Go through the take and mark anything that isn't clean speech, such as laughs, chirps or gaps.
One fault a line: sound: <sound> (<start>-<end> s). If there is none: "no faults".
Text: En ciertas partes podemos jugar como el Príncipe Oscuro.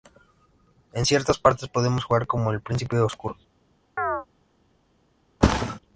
sound: chirp (4.0-4.3 s)
sound: thud (5.4-5.8 s)